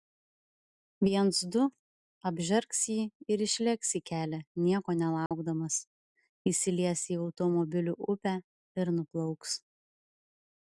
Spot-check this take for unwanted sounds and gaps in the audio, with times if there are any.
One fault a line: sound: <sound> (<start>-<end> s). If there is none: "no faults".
sound: dropout (5.3-5.3 s)